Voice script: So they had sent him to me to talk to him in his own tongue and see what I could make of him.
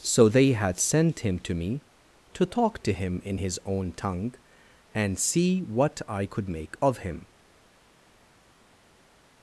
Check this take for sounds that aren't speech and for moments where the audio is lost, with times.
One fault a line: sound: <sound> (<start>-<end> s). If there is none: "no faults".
no faults